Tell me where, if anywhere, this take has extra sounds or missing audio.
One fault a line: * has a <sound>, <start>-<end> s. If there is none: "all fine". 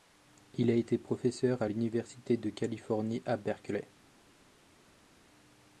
all fine